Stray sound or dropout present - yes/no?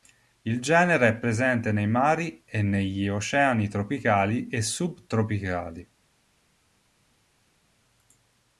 no